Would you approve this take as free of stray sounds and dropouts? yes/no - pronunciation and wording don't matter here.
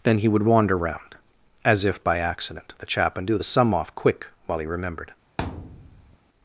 no